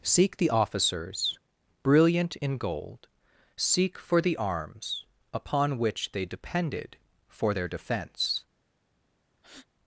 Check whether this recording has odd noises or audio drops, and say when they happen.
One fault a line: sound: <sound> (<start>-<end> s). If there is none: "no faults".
sound: breath (9.4-9.7 s)